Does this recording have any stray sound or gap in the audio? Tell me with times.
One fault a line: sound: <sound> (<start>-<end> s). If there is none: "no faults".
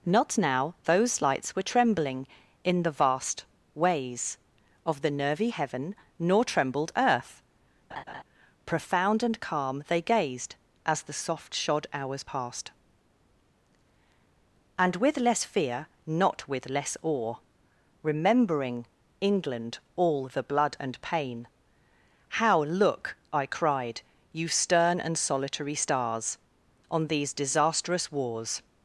sound: laugh (7.9-8.2 s)